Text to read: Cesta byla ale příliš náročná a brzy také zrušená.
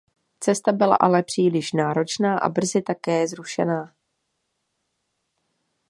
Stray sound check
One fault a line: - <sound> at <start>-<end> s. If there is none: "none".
none